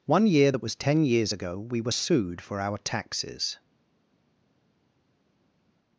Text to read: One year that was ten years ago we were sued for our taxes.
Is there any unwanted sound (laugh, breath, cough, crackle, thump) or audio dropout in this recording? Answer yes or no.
no